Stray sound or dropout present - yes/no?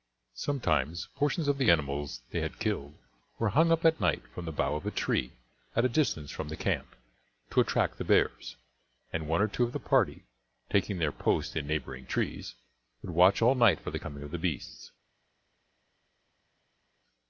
no